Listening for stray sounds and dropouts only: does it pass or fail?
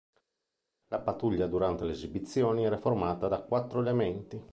pass